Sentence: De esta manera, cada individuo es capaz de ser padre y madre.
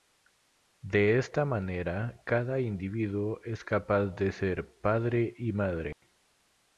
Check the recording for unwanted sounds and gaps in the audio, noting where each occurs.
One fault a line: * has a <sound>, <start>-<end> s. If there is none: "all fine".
* has a dropout, 5.9-6.0 s